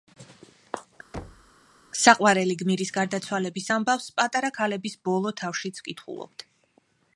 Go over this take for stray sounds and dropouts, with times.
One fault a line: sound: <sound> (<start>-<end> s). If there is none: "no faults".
sound: thud (1.1-1.5 s)